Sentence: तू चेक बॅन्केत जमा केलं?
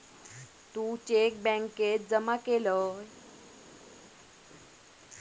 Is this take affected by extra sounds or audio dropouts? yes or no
no